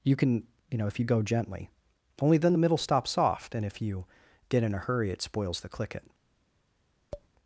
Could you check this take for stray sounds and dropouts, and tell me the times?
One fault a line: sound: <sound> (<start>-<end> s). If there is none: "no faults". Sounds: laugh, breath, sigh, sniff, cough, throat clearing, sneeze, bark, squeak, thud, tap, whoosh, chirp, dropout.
sound: tap (7.1-7.3 s)